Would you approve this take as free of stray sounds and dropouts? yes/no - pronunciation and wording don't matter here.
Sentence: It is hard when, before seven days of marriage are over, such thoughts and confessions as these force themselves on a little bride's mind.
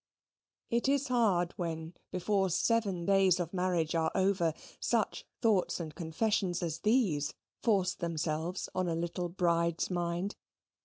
yes